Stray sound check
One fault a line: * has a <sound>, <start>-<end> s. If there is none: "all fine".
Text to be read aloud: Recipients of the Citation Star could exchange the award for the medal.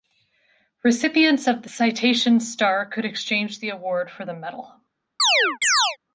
* has a chirp, 5.2-6.0 s